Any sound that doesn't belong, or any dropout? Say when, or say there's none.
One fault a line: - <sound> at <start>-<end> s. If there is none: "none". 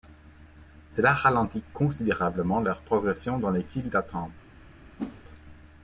- whoosh at 5.0-5.2 s